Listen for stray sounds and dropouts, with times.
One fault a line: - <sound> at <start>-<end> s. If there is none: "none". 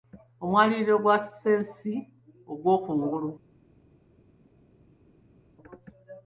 none